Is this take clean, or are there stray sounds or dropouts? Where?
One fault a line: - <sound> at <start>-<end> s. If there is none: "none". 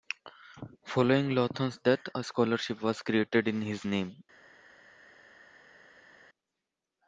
none